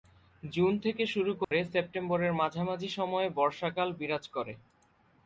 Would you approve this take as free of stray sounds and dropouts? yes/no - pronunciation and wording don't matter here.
no